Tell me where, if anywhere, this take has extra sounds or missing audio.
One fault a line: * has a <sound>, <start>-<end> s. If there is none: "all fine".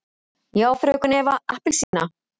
* has a dropout, 1.8-1.9 s